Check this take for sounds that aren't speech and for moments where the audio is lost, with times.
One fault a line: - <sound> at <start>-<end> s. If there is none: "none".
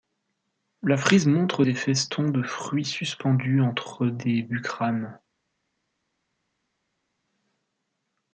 none